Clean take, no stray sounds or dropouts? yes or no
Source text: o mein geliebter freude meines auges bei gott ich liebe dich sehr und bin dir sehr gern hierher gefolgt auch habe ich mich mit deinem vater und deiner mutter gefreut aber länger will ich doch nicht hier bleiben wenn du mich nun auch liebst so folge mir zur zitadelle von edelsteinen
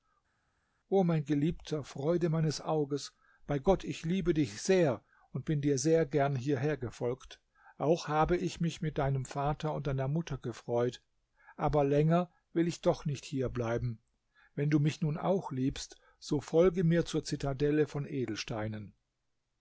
yes